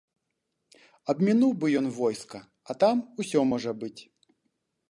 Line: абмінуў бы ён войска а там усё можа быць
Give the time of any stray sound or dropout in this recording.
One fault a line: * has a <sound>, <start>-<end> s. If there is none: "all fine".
all fine